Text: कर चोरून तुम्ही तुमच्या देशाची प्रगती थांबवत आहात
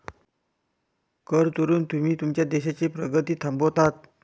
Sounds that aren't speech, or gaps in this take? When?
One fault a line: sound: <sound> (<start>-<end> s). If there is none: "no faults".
no faults